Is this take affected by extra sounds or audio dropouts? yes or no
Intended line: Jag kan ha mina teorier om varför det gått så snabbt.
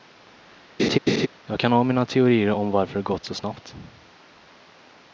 yes